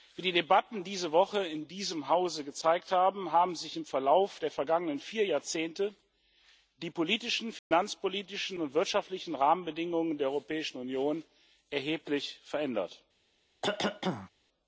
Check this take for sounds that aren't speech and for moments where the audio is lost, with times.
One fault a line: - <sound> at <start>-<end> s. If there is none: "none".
- dropout at 7.6-7.7 s
- cough at 13.6-14.3 s